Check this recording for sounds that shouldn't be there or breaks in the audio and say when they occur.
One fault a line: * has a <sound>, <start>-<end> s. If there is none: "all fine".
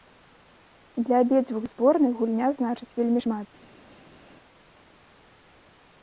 all fine